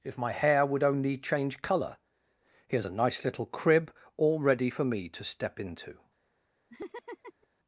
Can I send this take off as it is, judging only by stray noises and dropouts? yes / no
no